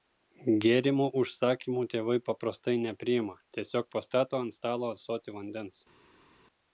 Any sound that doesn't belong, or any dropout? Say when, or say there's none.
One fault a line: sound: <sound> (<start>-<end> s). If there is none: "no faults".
no faults